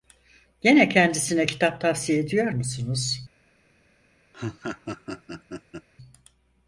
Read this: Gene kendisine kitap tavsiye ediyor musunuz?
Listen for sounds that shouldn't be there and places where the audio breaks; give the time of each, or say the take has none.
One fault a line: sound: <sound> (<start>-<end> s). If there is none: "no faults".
sound: laugh (4.3-5.9 s)